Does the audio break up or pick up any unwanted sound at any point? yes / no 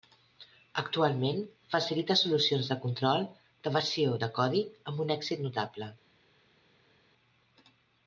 no